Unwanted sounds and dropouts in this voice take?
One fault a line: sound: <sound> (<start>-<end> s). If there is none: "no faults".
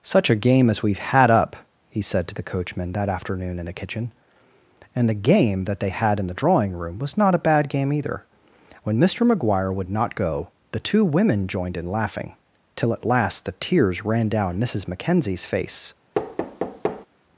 sound: thud (16.1-17.1 s)